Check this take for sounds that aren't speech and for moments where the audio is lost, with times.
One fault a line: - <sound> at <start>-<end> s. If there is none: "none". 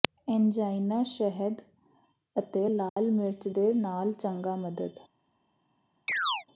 - dropout at 2.9-3.0 s
- chirp at 6.1-6.4 s